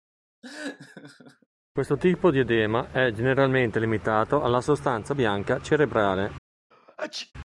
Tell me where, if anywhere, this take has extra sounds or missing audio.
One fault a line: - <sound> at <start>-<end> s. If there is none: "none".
- laugh at 0.4-1.5 s
- sneeze at 6.7-7.3 s